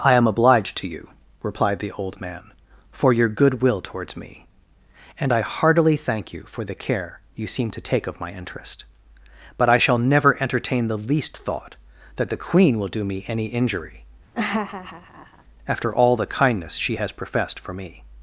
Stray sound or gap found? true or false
true